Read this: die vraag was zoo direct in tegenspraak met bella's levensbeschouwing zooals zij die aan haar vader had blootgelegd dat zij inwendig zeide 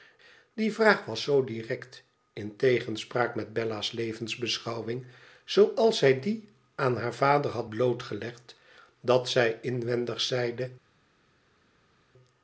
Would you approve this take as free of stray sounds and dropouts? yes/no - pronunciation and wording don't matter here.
yes